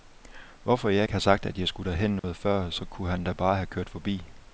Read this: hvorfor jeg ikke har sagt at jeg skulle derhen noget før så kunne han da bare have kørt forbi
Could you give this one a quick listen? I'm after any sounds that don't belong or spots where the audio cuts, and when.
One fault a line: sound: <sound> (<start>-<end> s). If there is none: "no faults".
sound: dropout (2.2-2.2 s)